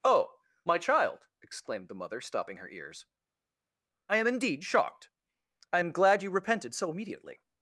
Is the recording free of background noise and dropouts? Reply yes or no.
yes